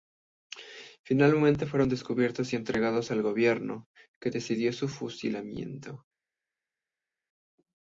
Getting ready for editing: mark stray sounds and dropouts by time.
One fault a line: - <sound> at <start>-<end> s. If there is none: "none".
none